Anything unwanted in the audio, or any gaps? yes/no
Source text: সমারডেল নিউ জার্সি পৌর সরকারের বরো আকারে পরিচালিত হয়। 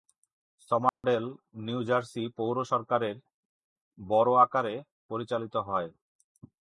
yes